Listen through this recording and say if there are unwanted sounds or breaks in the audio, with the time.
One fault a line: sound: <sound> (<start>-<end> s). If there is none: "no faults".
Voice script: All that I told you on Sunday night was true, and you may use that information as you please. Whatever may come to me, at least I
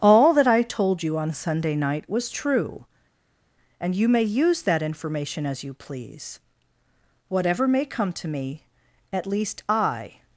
no faults